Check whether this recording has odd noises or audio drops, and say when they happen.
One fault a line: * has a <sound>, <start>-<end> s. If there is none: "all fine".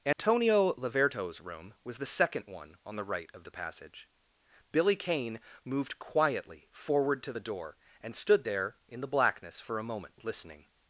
* has a dropout, 0.1-0.2 s